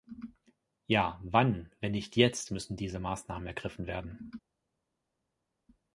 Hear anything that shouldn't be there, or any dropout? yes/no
no